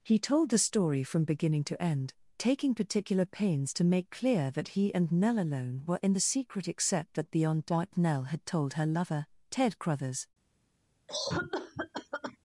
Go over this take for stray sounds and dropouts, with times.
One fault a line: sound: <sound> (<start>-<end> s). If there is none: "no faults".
sound: cough (11.1-12.4 s)